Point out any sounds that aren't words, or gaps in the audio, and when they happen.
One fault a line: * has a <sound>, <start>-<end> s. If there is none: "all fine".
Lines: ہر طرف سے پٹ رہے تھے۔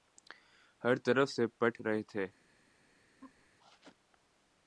* has a laugh, 3.2-3.5 s